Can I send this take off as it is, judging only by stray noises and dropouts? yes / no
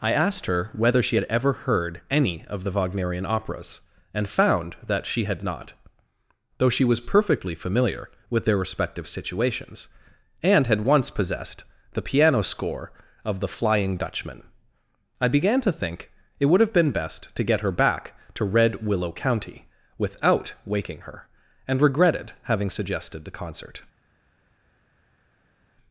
yes